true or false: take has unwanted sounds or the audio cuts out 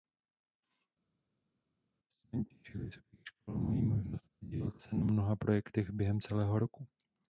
false